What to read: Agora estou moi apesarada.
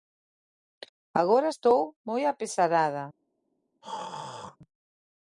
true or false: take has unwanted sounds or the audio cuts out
true